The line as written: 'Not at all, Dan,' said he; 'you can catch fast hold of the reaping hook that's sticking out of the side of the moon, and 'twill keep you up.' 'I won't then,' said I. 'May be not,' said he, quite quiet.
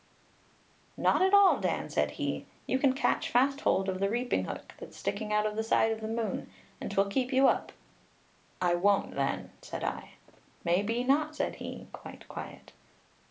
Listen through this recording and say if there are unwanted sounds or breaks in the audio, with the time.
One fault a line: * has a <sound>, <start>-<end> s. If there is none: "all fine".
all fine